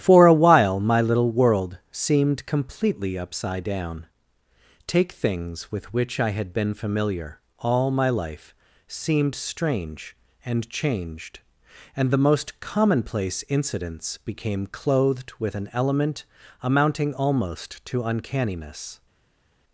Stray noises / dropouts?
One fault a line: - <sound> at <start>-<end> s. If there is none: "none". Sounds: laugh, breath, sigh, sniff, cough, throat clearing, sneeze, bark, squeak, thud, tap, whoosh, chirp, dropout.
none